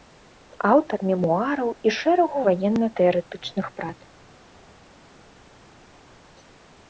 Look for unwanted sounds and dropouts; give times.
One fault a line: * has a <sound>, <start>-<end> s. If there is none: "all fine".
all fine